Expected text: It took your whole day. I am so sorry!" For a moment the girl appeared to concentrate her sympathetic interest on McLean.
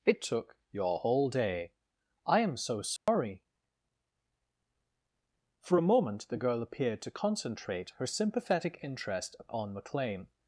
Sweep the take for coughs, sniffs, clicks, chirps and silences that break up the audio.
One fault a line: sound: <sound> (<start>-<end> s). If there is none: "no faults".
sound: dropout (3.0-3.1 s)